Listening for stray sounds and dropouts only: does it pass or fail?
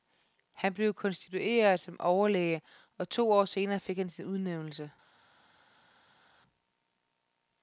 pass